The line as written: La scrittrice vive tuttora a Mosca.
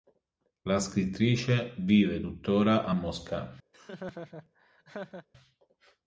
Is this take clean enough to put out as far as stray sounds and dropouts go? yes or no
no